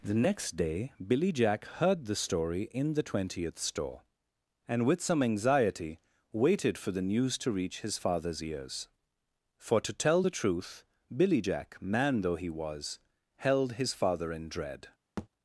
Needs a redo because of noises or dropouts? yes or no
yes